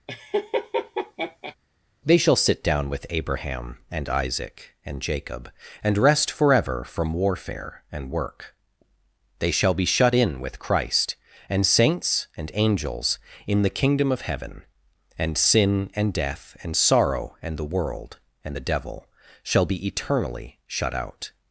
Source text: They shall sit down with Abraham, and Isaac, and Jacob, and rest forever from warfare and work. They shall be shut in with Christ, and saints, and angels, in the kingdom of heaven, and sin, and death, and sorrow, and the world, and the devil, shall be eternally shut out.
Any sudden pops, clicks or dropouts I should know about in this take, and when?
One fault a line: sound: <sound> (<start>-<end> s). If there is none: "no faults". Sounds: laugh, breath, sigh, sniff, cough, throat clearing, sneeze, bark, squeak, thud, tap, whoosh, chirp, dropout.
sound: laugh (0.1-1.6 s)